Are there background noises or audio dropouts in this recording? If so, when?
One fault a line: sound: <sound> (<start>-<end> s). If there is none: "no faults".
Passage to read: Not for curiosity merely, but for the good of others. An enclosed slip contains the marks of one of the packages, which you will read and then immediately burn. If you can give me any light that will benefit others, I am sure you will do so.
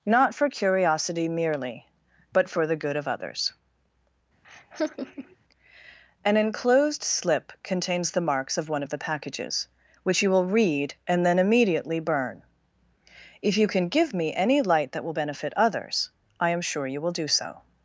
sound: laugh (4.4-5.4 s)